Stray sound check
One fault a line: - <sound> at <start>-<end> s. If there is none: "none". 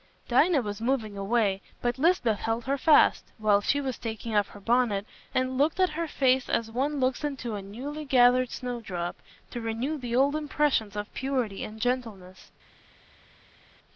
none